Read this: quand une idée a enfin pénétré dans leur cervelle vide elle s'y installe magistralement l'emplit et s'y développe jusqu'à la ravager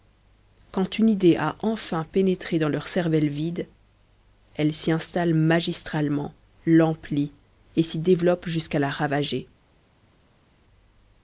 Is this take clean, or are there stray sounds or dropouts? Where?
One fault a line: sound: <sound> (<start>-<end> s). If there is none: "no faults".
no faults